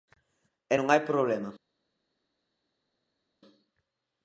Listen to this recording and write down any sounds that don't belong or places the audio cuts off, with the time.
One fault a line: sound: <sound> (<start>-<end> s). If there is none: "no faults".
no faults